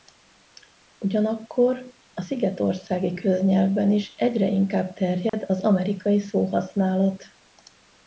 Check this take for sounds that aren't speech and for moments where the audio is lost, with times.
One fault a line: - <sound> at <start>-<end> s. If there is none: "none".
- dropout at 5.3-5.3 s